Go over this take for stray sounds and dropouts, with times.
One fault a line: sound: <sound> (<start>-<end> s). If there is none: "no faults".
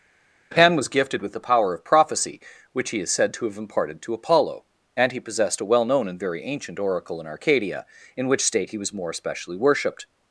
no faults